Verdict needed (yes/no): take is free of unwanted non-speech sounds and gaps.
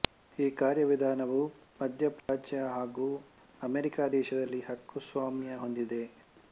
no